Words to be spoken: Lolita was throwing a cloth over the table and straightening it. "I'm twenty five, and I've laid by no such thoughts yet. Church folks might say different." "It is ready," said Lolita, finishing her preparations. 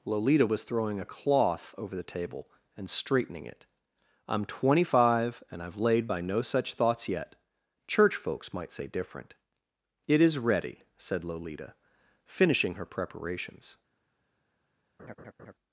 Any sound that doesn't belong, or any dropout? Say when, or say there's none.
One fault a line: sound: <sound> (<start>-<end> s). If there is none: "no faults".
sound: laugh (15.0-15.5 s)